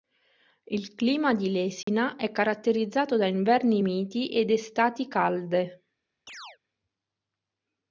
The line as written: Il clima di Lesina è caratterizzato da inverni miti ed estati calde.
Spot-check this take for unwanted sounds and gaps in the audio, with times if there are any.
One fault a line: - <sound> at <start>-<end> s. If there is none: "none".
- dropout at 1.8-1.9 s
- chirp at 6.3-6.6 s